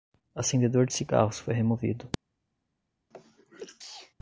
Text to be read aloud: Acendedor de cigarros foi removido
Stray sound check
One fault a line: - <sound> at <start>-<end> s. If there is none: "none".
- sneeze at 3.1-4.1 s